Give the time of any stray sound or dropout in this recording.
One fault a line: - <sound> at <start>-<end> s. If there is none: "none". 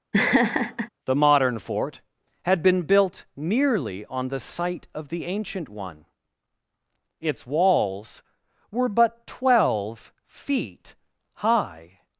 - laugh at 0.1-0.9 s